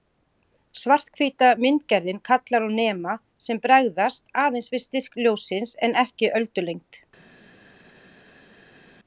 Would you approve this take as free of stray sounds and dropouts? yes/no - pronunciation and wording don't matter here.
yes